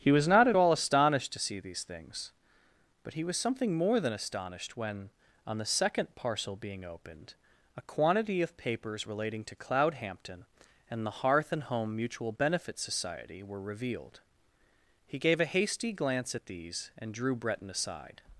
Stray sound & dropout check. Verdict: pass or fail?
pass